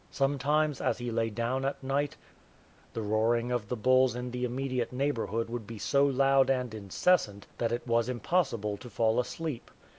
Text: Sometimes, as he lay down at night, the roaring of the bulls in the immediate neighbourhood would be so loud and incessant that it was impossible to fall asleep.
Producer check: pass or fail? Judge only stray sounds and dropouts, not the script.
pass